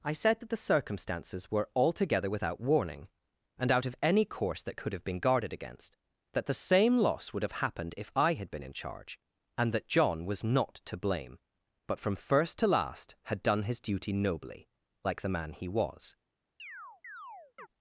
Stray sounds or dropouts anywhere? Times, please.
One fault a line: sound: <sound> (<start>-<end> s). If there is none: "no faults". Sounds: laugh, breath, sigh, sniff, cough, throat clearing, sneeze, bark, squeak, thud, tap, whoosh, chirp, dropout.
sound: chirp (16.6-17.7 s)